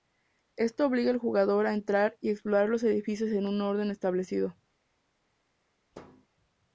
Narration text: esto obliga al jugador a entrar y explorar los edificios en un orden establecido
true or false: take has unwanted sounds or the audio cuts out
true